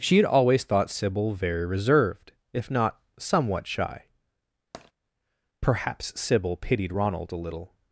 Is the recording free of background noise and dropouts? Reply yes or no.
no